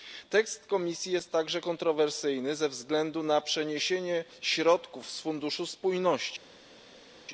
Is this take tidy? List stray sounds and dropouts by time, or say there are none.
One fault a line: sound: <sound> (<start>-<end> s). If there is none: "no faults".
no faults